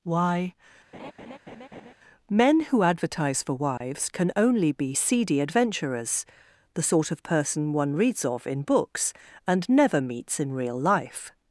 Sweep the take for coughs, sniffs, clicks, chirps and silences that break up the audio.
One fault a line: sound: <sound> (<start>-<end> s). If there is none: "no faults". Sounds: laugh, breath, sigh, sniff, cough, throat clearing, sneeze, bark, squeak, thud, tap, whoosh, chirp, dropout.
sound: laugh (0.9-1.9 s)
sound: dropout (3.8-3.8 s)